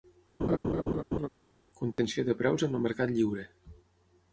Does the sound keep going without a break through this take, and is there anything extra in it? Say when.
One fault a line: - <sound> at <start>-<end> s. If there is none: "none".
- laugh at 0.4-1.3 s
- dropout at 1.9-2.0 s